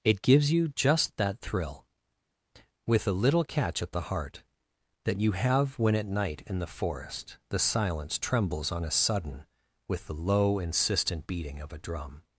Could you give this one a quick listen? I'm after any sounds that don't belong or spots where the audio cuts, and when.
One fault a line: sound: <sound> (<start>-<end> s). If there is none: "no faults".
no faults